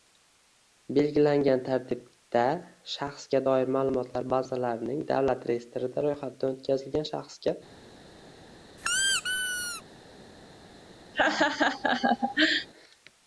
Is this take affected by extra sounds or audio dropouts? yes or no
yes